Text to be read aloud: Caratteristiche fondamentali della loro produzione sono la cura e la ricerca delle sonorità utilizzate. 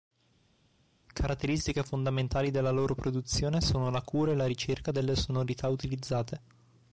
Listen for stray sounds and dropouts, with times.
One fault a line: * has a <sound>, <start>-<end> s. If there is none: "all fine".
all fine